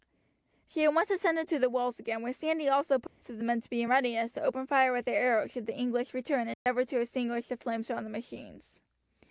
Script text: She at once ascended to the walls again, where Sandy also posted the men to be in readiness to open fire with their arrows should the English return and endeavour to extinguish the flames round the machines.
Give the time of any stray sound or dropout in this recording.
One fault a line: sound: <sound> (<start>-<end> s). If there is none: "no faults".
sound: dropout (3.1-3.2 s)
sound: dropout (6.5-6.7 s)